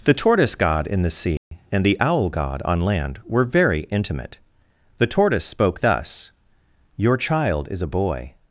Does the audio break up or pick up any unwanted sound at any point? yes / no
yes